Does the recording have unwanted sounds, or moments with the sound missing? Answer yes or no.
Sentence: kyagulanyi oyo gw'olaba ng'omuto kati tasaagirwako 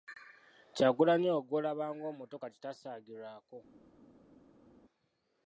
no